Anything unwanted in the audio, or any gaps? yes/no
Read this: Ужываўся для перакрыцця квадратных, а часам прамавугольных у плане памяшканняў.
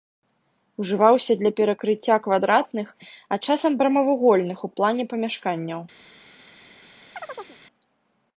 yes